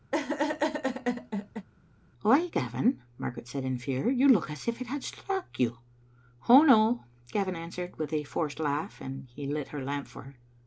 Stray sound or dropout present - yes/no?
yes